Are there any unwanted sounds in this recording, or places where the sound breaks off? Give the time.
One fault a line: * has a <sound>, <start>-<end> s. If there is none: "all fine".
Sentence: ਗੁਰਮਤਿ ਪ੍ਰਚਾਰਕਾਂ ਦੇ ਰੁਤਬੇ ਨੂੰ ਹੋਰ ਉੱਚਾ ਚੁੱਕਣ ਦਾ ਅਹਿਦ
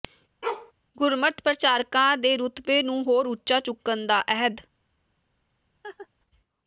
* has a bark, 0.4-0.7 s
* has a laugh, 5.8-6.1 s